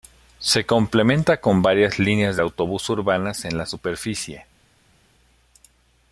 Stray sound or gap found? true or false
false